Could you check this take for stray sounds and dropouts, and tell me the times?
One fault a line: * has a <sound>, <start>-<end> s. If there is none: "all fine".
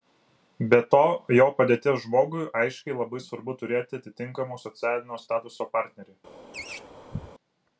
* has a laugh, 6.5-7.3 s